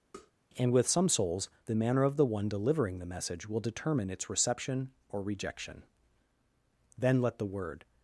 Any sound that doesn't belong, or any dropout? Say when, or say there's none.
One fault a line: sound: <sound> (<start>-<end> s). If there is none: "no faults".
sound: tap (0.1-0.3 s)